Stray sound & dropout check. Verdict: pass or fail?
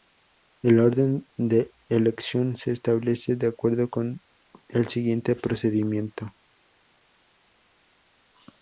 pass